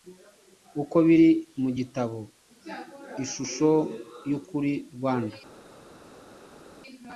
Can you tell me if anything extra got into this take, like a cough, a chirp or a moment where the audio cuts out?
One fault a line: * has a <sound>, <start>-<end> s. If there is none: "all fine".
all fine